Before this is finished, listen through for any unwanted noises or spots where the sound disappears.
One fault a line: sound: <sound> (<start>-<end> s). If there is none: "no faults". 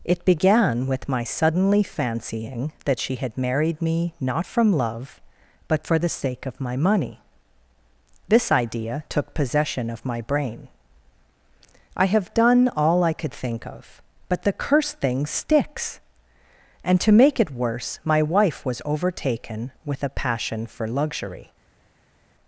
no faults